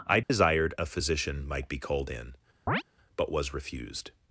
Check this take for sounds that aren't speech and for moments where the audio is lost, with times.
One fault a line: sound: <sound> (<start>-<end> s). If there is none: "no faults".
sound: dropout (0.2-0.3 s)
sound: chirp (2.7-2.8 s)